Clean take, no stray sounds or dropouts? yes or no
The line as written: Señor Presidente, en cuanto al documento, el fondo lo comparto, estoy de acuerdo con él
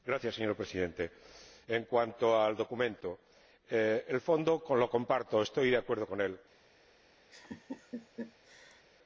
no